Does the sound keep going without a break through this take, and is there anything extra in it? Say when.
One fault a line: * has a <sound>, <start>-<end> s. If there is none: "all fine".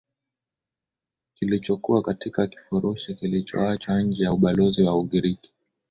all fine